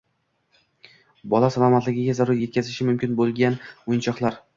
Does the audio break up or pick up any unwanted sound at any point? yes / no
no